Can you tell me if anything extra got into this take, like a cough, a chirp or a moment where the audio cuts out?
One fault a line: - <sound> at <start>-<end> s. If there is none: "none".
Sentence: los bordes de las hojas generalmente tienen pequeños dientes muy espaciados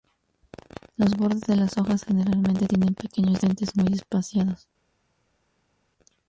none